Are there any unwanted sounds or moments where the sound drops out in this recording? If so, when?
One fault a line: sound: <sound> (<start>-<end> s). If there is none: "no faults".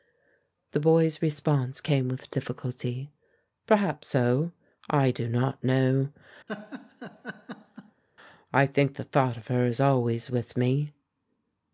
sound: laugh (6.5-8.0 s)